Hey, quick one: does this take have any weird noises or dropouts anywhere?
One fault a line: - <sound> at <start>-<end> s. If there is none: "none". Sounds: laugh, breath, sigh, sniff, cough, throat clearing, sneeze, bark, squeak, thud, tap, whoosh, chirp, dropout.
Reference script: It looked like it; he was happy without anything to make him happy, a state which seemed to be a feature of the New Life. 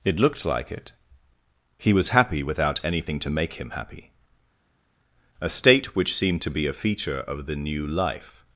none